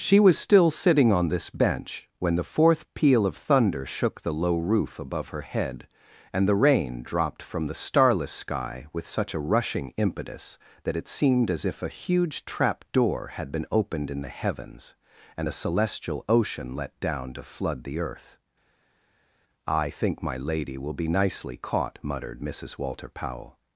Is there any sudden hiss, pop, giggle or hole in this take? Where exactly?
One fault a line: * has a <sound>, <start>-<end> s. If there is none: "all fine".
all fine